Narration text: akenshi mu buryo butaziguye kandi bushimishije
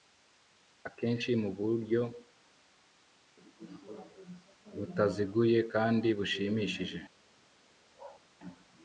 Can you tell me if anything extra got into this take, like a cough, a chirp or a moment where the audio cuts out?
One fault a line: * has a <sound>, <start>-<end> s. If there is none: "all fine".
* has a bark, 7.9-8.2 s